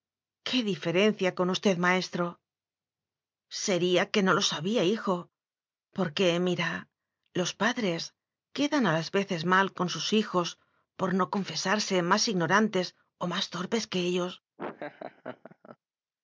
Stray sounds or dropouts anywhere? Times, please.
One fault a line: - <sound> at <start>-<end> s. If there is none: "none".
- laugh at 14.6-15.8 s